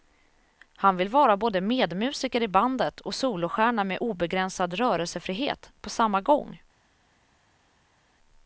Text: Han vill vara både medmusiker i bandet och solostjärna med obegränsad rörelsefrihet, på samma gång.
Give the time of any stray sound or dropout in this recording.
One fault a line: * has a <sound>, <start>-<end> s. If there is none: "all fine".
all fine